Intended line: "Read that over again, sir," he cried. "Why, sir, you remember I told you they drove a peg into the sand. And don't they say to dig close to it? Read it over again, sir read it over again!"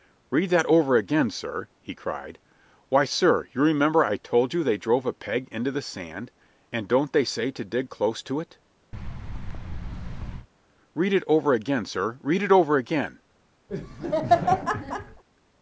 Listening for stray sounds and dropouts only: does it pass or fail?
fail